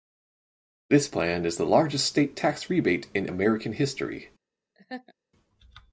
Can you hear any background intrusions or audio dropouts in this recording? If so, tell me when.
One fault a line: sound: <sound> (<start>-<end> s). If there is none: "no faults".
sound: laugh (4.8-5.1 s)